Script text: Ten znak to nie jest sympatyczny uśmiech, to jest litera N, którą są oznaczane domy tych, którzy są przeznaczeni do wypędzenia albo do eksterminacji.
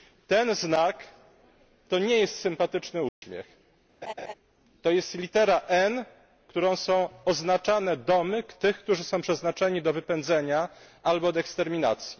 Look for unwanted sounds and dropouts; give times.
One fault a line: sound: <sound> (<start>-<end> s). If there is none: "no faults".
sound: dropout (3.1-3.2 s)
sound: laugh (4.0-4.3 s)